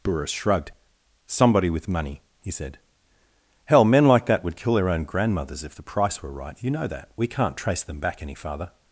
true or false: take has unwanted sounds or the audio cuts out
false